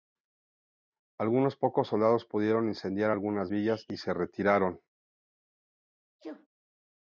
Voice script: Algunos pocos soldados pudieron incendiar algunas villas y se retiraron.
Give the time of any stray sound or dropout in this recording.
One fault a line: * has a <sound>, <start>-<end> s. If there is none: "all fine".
* has a sneeze, 6.2-6.5 s